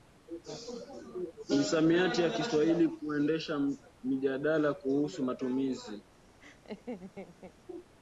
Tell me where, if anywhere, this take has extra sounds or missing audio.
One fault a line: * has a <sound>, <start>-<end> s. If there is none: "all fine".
* has a laugh, 6.4-7.5 s